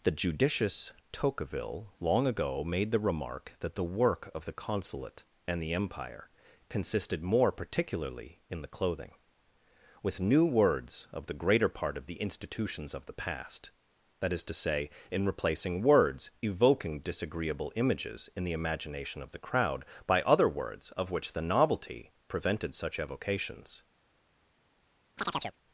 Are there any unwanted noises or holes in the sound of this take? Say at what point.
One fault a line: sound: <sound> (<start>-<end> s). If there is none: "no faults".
sound: chirp (25.2-25.6 s)